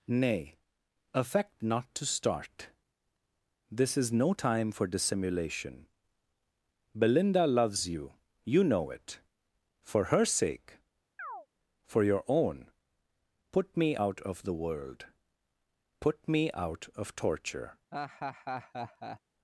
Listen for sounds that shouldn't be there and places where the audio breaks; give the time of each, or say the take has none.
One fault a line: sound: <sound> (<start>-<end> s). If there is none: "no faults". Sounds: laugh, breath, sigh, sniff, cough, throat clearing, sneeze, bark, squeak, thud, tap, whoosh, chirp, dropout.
sound: chirp (11.2-11.5 s)
sound: laugh (17.9-19.2 s)